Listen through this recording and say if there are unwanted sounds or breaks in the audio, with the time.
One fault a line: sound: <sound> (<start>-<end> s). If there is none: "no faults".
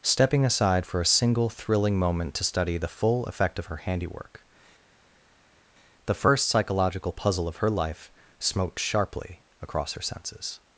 no faults